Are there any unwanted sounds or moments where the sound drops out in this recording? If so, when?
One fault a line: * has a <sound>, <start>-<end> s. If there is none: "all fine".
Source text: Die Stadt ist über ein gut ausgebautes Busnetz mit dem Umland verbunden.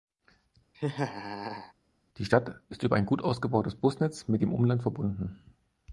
* has a laugh, 0.7-1.7 s